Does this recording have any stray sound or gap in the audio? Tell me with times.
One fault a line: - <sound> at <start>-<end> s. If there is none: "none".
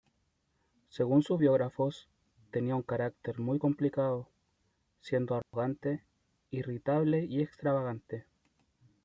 - dropout at 5.4-5.5 s